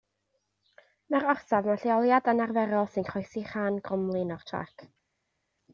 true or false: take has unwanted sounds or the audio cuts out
false